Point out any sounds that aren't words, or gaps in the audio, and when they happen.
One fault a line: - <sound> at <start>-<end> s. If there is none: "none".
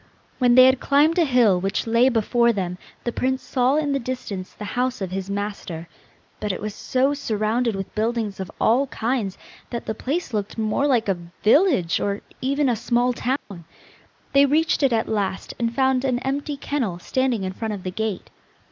- dropout at 13.4-13.5 s